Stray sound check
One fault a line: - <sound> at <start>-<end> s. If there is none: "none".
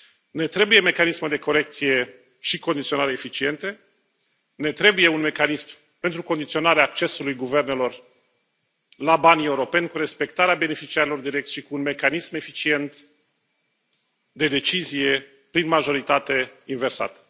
none